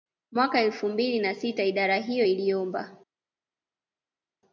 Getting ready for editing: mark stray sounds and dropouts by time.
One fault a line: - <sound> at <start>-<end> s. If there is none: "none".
none